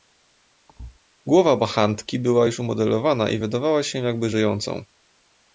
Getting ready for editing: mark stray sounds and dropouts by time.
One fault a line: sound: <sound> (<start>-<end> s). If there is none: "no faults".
sound: thud (0.7-1.0 s)